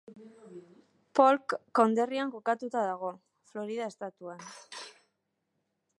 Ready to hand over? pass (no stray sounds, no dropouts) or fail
pass